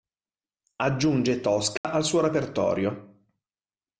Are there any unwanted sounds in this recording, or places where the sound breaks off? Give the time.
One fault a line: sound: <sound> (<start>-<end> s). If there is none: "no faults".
sound: dropout (1.8-1.8 s)